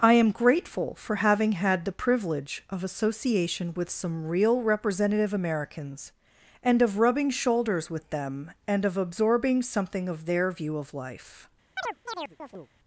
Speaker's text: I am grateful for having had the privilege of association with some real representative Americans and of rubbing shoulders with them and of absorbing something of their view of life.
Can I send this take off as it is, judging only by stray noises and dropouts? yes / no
no